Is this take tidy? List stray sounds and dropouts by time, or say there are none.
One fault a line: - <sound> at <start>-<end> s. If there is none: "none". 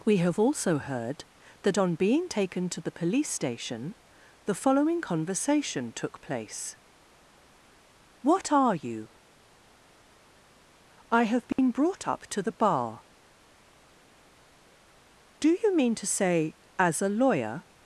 - dropout at 11.5-11.6 s